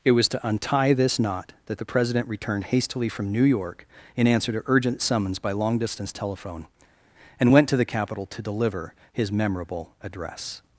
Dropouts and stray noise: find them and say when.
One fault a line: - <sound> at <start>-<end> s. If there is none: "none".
none